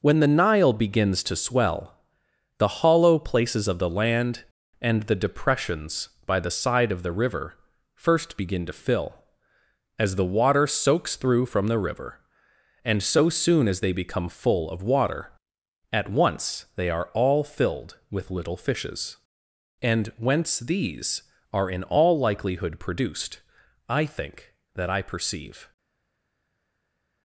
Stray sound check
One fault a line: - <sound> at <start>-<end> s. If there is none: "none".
none